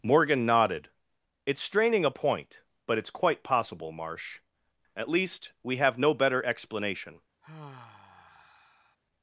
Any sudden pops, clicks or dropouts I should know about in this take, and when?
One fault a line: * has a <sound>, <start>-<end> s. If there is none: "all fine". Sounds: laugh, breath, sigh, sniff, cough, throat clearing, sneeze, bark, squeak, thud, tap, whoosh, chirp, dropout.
* has a sigh, 7.4-9.0 s